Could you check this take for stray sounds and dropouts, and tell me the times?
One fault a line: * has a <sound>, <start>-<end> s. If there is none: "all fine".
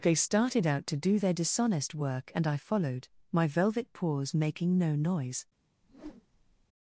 * has a whoosh, 5.8-6.7 s